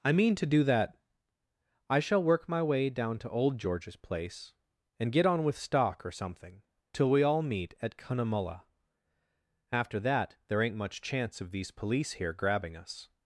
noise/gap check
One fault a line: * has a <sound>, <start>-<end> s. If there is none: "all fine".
all fine